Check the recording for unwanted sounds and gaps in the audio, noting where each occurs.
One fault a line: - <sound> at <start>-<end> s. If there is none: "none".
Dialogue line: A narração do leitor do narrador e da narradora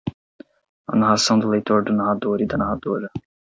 none